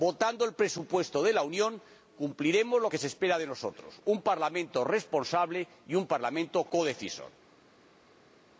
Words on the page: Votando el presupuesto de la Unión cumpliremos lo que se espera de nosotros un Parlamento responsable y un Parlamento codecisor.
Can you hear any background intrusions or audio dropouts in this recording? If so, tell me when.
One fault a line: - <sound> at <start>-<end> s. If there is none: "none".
none